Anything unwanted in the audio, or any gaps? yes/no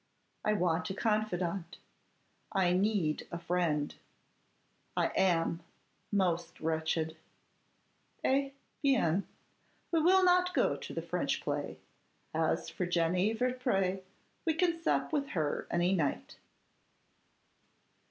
no